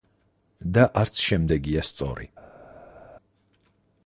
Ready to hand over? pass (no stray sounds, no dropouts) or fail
pass